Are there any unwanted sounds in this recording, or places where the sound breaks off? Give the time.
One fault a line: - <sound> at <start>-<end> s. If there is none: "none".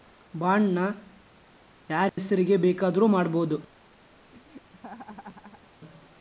- dropout at 2.1-2.2 s
- laugh at 4.3-5.7 s